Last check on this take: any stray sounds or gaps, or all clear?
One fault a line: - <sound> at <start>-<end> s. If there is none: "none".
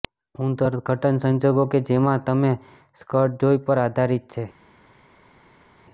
none